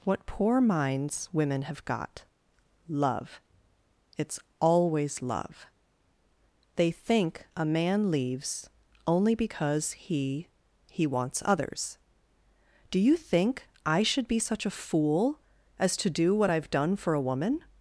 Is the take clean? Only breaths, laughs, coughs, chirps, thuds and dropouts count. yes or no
yes